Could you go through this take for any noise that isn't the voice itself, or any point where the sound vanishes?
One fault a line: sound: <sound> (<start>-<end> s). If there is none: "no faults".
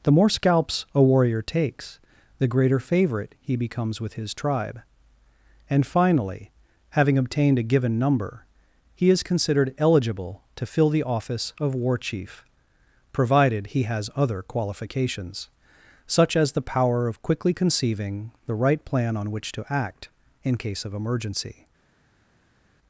no faults